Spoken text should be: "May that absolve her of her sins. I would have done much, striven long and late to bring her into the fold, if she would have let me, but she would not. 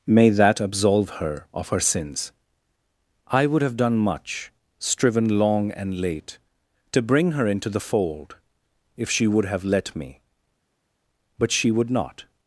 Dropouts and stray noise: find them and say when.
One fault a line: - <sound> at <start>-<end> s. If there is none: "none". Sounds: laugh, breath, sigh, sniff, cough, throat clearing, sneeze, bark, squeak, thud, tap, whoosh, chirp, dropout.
none